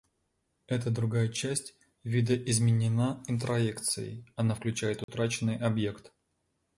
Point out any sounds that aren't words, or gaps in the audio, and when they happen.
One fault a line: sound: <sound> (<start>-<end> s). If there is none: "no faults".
sound: dropout (5.0-5.1 s)